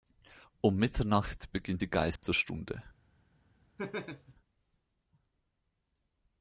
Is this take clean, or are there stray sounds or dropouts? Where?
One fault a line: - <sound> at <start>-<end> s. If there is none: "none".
- dropout at 2.2-2.2 s
- laugh at 3.8-4.3 s